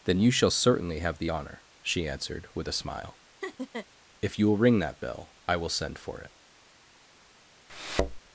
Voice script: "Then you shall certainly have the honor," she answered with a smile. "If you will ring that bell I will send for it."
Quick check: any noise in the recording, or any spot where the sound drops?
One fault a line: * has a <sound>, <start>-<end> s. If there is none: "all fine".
* has a laugh, 3.4-3.9 s
* has a thud, 7.7-8.2 s